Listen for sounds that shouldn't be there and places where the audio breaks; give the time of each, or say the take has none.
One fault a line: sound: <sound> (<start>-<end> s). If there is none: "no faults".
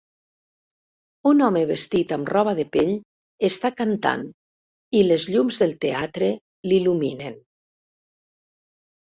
no faults